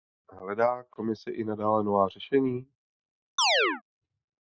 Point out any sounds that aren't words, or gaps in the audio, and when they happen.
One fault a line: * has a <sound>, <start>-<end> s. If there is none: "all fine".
* has a chirp, 3.4-3.8 s